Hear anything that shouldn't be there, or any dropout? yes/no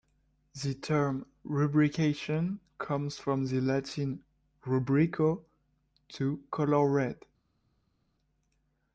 no